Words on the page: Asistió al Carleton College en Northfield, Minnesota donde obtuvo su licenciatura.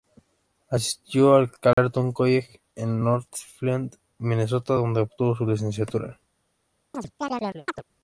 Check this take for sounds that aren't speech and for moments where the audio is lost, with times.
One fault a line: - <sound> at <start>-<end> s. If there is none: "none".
- dropout at 1.7-1.8 s
- chirp at 6.9-7.8 s